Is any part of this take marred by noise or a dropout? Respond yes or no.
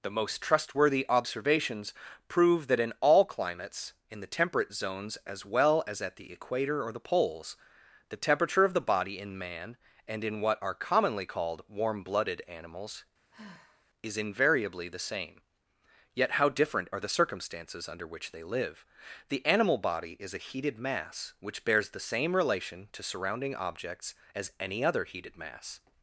yes